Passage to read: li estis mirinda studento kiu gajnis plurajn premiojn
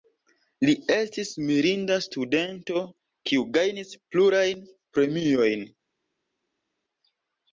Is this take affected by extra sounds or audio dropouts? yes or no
no